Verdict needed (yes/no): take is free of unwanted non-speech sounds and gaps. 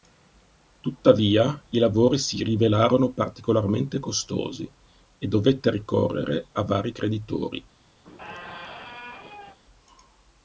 no